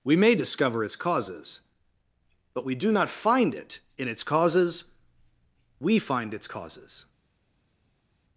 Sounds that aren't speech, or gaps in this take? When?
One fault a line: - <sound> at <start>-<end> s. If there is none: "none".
none